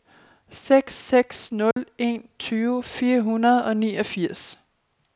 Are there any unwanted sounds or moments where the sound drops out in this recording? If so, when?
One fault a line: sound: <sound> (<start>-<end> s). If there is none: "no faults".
sound: dropout (1.7-1.8 s)